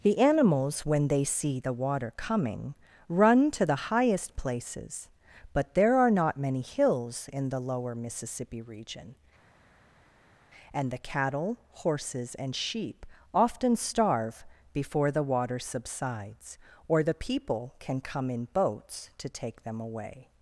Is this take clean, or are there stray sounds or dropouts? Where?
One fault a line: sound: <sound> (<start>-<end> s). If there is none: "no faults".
no faults